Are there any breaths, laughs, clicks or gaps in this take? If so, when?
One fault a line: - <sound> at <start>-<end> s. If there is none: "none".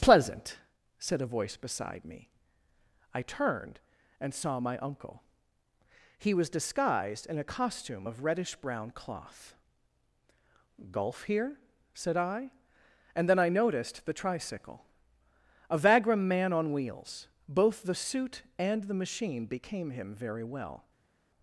none